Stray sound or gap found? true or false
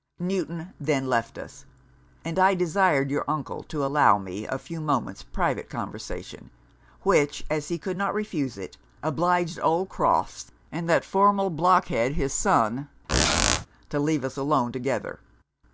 true